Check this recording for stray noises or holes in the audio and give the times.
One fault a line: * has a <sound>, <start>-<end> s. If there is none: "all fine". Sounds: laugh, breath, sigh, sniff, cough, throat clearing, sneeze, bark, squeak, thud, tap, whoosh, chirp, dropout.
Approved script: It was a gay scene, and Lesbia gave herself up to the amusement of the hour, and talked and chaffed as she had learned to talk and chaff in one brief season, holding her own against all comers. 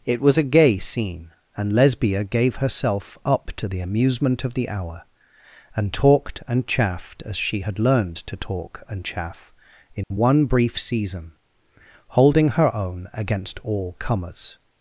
* has a dropout, 10.0-10.1 s